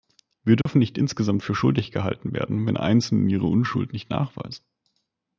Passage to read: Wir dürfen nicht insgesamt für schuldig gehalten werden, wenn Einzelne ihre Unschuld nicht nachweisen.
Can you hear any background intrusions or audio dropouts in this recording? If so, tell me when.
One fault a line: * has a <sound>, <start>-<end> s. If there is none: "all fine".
* has a dropout, 0.6-0.7 s